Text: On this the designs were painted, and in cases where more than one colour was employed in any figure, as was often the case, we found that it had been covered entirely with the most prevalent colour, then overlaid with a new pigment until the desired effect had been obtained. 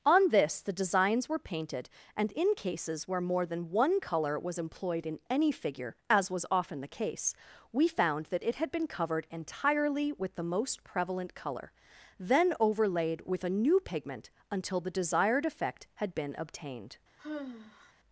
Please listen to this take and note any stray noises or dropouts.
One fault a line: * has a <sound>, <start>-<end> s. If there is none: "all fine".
* has a sigh, 17.2-17.9 s